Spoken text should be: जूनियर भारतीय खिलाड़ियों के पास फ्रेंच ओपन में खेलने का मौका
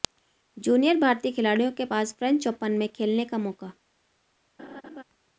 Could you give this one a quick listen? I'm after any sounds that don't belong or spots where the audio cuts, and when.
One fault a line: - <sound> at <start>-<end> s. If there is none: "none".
- laugh at 4.6-5.0 s